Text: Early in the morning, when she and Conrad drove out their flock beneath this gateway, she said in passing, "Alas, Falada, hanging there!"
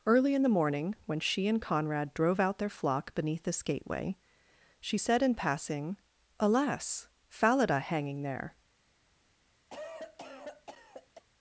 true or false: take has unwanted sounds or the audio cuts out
true